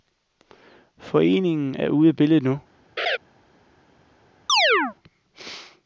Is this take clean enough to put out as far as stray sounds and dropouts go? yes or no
no